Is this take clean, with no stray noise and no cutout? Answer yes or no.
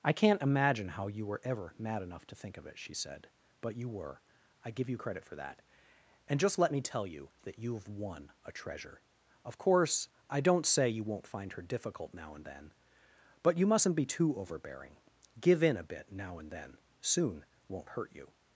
yes